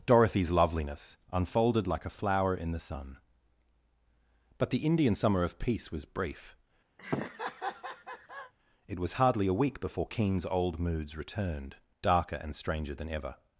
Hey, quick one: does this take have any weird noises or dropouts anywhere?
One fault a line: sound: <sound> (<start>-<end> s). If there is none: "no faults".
sound: laugh (7.0-8.5 s)